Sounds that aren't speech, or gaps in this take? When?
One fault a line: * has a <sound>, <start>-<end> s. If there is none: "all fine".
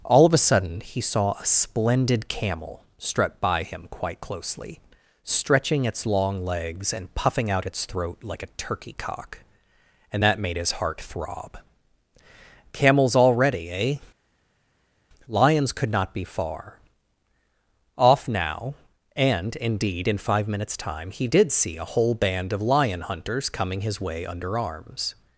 all fine